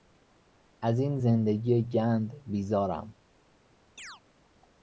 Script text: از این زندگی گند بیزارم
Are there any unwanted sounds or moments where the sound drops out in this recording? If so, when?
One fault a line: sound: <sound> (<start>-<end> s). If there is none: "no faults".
sound: chirp (4.0-4.2 s)